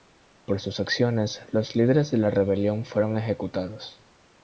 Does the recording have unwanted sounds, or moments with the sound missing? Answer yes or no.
no